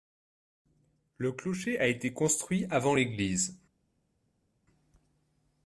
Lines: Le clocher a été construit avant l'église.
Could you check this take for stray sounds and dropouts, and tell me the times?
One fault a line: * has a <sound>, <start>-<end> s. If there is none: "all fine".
all fine